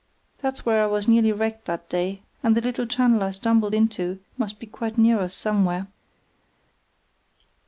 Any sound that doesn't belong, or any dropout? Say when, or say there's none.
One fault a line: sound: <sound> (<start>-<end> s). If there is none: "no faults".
no faults